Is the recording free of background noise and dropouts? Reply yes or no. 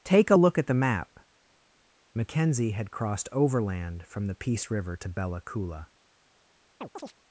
no